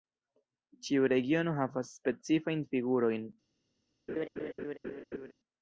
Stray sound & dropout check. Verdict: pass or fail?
fail